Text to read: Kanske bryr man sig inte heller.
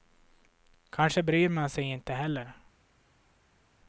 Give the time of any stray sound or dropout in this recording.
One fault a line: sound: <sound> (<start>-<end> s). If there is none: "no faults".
no faults